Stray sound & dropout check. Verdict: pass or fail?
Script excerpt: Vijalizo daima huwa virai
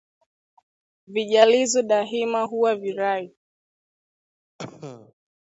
fail